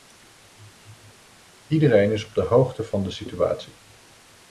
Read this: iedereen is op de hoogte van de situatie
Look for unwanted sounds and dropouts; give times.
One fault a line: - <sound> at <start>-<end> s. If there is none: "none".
none